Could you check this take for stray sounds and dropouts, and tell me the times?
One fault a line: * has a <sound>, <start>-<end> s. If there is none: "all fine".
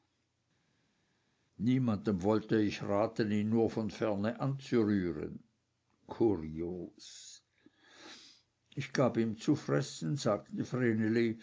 all fine